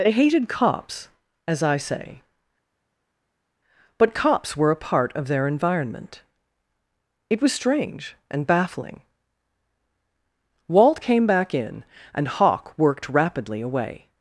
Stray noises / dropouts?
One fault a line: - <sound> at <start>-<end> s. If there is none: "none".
none